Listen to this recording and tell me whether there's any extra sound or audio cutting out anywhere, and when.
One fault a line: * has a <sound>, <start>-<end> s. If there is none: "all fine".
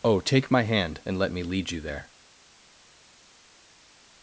all fine